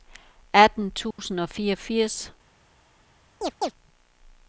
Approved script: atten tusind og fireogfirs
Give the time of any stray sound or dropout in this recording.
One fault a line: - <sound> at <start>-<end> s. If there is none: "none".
- dropout at 1.1-1.2 s
- chirp at 3.4-3.7 s